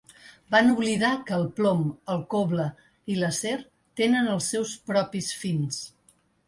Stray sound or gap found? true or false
false